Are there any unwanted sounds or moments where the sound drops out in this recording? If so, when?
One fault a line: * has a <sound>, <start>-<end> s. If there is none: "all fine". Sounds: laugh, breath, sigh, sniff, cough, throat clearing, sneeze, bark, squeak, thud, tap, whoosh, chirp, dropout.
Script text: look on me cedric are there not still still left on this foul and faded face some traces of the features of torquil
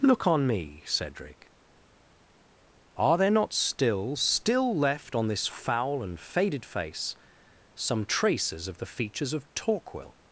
all fine